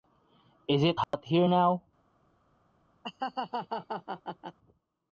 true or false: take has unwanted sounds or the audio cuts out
true